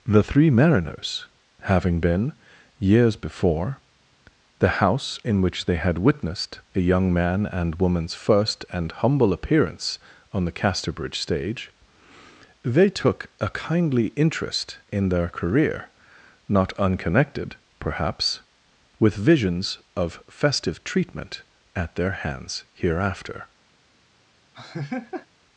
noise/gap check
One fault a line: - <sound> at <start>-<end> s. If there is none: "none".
- laugh at 24.5-25.3 s